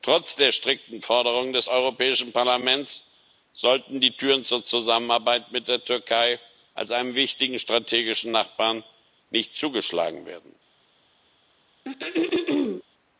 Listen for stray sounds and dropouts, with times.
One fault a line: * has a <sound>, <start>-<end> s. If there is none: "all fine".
* has a throat clearing, 11.8-12.8 s